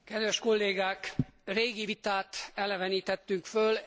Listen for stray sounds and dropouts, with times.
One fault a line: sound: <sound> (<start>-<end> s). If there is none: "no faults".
no faults